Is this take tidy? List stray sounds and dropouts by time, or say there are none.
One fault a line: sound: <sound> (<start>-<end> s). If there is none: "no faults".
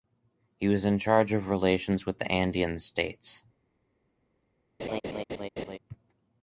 sound: laugh (4.8-5.8 s)